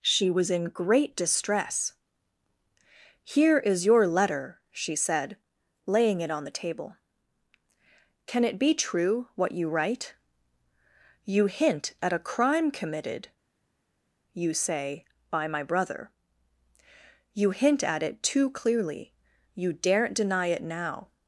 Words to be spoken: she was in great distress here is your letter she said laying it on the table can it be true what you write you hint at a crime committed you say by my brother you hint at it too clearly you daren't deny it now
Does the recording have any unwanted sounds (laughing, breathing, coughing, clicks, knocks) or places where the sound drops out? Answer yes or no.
no